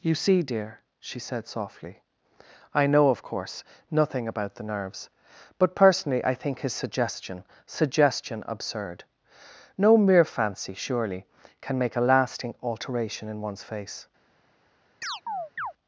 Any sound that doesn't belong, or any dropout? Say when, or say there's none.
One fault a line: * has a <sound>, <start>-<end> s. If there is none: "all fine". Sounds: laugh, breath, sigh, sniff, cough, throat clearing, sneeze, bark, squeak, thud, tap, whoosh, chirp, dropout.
* has a chirp, 15.0-15.7 s